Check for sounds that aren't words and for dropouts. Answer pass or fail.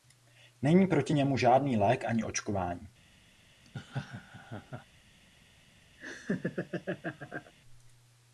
fail